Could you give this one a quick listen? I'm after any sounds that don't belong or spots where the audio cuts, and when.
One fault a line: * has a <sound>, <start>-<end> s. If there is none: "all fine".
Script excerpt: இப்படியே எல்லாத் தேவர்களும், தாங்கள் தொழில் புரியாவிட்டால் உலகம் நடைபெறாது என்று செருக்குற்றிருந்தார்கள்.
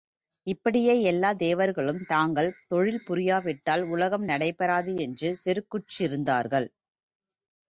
all fine